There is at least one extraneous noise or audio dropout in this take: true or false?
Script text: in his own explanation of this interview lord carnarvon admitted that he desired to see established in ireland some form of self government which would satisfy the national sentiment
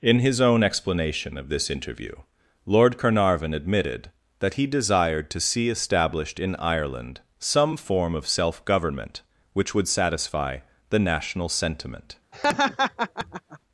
true